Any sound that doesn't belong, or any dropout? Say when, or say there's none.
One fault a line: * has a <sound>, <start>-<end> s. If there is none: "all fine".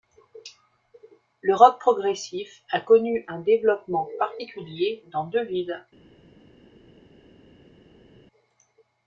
all fine